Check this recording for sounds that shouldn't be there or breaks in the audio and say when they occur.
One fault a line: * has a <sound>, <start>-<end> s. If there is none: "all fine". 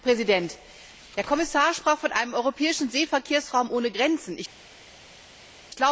all fine